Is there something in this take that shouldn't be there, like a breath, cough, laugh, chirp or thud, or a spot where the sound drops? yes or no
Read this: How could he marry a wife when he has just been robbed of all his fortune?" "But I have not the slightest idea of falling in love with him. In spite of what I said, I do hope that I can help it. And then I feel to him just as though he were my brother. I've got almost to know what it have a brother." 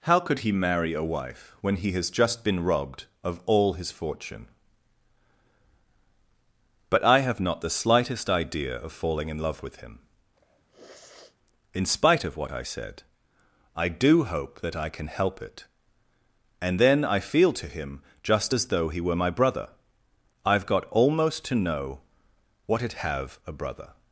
yes